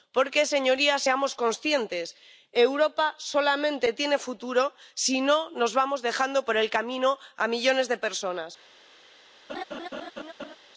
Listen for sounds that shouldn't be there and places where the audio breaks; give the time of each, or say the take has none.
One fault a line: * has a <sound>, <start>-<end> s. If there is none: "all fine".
* has a laugh, 9.5-10.6 s